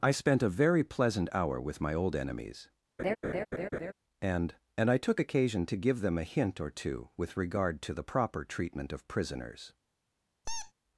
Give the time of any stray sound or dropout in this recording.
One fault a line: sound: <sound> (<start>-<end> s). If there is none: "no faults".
sound: laugh (3.0-3.9 s)
sound: squeak (10.4-10.7 s)